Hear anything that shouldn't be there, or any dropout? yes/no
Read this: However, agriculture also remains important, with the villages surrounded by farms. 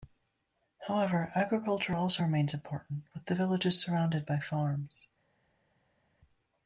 no